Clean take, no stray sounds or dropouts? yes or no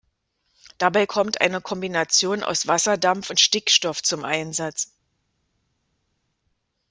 yes